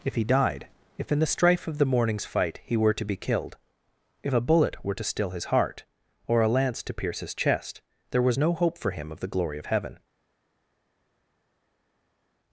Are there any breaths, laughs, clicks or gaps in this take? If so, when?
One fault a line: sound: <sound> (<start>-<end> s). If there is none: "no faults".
no faults